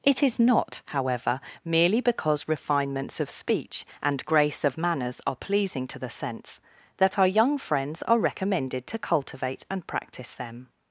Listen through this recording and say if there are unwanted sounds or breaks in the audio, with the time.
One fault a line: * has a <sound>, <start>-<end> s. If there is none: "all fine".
all fine